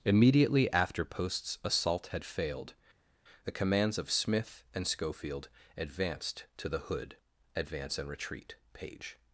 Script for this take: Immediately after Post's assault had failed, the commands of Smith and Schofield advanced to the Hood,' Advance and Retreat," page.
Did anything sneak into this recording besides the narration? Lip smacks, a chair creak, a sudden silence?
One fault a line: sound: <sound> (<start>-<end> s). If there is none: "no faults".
no faults